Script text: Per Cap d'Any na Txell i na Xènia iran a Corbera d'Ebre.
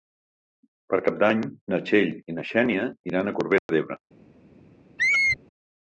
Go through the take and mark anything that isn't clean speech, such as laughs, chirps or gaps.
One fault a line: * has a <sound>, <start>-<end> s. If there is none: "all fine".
* has a dropout, 3.6-3.7 s
* has a squeak, 5.0-5.4 s